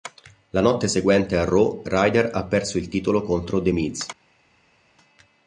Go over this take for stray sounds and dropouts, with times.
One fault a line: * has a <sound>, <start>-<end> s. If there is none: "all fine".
all fine